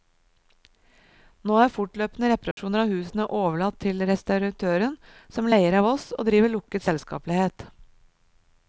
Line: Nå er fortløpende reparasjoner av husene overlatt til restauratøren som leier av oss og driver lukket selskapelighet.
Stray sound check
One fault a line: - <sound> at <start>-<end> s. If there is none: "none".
- dropout at 2.5-2.6 s